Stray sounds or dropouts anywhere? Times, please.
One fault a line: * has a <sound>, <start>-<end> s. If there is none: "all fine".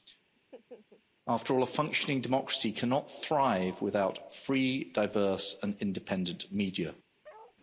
* has a laugh, 0.4-1.0 s
* has a bark, 7.2-7.6 s